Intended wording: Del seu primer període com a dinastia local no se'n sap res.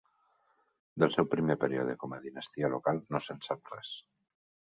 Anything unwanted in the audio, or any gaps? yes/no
no